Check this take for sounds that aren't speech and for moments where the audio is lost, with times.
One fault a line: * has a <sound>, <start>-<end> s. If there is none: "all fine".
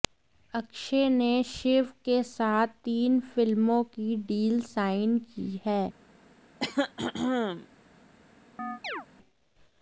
* has a throat clearing, 6.6-7.7 s
* has a chirp, 8.6-9.1 s